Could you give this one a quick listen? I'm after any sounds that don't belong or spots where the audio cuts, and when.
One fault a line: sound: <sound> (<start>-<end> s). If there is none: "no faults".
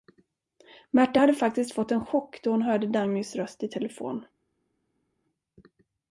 no faults